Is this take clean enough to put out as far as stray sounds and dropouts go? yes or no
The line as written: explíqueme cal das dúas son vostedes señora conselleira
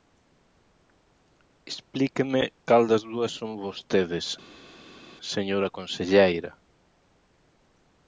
yes